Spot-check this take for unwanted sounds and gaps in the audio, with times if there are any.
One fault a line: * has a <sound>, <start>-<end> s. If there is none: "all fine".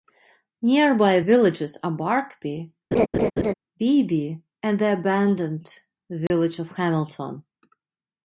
* has a laugh, 2.9-3.5 s
* has a dropout, 6.3-6.3 s